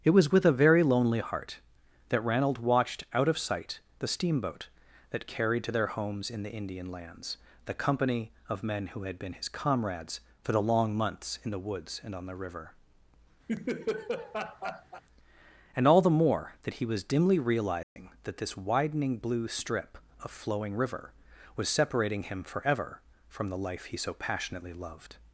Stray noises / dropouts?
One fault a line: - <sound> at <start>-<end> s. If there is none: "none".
- laugh at 13.5-15.0 s
- dropout at 17.8-18.0 s